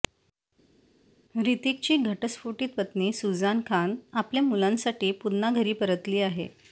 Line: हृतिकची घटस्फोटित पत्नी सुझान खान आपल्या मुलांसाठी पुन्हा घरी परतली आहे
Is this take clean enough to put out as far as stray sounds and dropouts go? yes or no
yes